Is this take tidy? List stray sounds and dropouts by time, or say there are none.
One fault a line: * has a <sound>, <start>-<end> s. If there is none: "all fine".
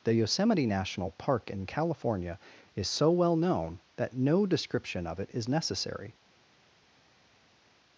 all fine